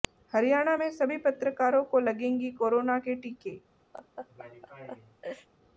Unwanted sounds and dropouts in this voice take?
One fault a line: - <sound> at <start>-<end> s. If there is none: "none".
- laugh at 3.9-5.5 s